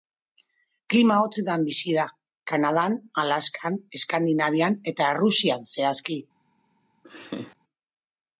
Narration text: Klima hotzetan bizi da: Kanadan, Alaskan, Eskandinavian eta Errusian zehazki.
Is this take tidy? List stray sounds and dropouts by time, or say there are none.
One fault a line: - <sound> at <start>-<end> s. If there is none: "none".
- laugh at 7.0-7.6 s